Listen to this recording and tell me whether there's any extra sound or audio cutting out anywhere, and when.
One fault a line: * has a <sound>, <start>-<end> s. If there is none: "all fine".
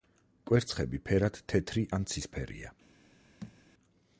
* has a thud, 3.4-3.6 s